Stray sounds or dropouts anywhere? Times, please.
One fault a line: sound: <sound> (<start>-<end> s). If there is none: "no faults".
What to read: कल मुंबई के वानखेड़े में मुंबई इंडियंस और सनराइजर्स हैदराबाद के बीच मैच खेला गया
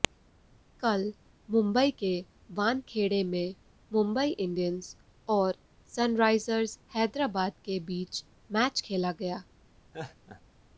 sound: laugh (9.9-10.4 s)